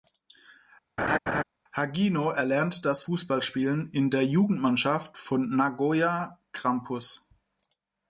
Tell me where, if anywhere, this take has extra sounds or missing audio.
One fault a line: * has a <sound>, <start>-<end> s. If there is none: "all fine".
* has a laugh, 1.0-1.4 s